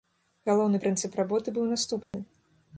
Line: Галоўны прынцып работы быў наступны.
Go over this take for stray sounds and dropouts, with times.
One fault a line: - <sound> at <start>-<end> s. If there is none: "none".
- dropout at 2.0-2.1 s